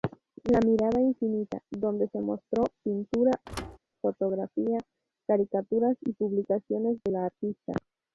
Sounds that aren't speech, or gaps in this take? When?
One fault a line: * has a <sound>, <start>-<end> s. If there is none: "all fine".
* has a thud, 3.5-3.8 s